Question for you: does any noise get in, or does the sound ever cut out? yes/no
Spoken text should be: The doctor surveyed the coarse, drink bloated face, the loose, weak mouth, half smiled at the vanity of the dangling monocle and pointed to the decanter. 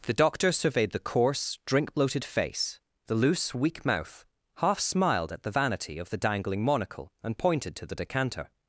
no